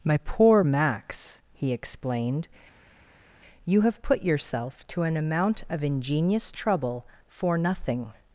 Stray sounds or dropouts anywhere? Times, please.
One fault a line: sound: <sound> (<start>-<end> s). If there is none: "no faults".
no faults